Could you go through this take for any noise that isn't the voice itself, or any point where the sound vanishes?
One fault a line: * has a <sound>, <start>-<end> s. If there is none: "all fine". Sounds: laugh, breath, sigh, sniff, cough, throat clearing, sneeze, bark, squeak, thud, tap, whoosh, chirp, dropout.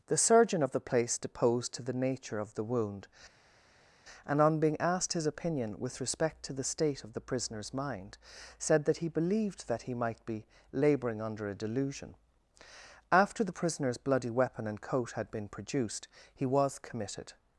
all fine